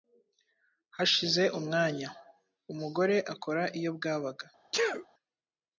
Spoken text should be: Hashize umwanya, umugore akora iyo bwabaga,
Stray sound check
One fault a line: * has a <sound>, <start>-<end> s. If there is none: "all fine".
* has a sneeze, 4.7-5.1 s